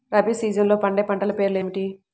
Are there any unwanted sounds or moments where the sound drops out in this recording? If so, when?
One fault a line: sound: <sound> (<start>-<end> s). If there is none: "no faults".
no faults